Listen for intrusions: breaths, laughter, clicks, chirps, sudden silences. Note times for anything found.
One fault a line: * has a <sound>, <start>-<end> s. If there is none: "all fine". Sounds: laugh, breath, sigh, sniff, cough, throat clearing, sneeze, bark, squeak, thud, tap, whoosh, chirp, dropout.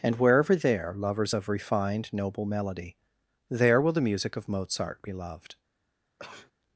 * has a sneeze, 6.2-6.5 s